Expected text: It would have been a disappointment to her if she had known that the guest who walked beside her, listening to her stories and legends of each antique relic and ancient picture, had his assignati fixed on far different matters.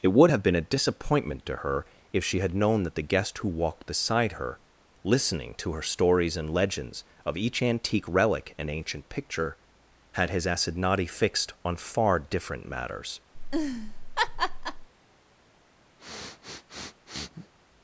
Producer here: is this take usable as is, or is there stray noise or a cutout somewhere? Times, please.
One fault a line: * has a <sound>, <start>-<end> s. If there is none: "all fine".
* has a laugh, 13.3-14.9 s
* has a sniff, 16.0-17.5 s